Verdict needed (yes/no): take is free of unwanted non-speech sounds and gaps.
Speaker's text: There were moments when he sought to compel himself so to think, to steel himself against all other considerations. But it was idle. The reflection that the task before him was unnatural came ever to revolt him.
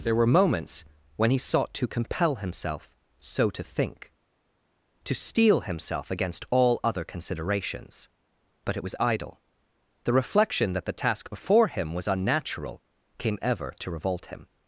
yes